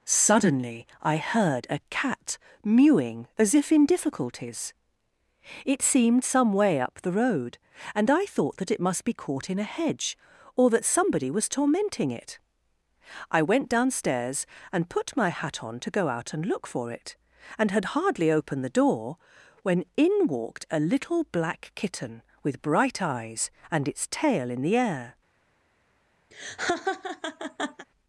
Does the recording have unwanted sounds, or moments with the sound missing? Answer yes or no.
yes